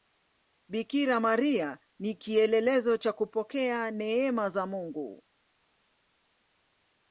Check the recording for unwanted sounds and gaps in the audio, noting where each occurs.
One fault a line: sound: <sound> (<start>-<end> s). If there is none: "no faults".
no faults